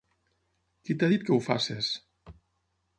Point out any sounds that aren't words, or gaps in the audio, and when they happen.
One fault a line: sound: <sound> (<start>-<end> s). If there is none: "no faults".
no faults